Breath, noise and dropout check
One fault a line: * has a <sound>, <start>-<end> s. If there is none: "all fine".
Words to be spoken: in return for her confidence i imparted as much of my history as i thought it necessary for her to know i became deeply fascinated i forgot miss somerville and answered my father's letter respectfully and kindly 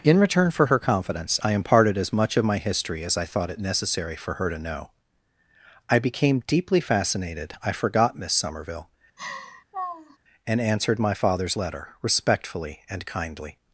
* has a laugh, 9.2-10.2 s